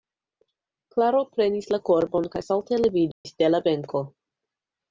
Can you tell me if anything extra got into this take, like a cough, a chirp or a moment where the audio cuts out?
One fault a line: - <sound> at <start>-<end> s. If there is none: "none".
- dropout at 3.1-3.2 s